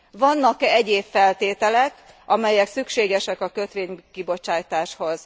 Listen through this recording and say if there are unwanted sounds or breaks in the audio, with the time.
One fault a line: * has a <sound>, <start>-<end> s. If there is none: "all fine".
all fine